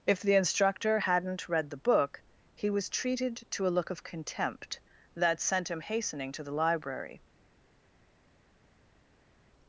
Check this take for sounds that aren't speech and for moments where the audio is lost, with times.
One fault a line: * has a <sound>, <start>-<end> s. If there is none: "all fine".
all fine